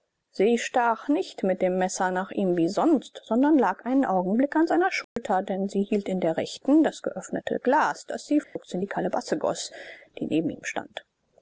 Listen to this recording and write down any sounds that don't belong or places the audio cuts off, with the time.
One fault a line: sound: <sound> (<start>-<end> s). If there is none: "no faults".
sound: dropout (5.0-5.2 s)
sound: dropout (8.4-8.6 s)